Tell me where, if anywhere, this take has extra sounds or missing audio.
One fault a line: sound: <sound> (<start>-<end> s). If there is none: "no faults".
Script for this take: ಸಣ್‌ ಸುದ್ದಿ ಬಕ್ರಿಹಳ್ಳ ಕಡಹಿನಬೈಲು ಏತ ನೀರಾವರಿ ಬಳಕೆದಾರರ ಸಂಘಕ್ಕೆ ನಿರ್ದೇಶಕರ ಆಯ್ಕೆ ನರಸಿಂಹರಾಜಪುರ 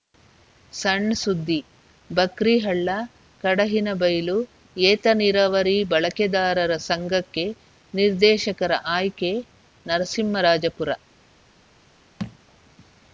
sound: thud (12.2-12.4 s)